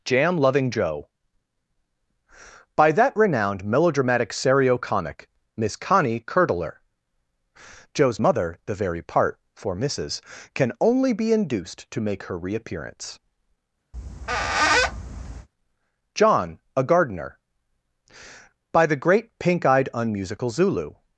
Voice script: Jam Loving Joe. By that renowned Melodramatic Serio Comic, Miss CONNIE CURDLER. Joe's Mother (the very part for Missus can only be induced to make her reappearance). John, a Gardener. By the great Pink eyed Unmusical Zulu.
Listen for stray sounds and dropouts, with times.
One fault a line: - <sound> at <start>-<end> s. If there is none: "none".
- squeak at 13.9-15.5 s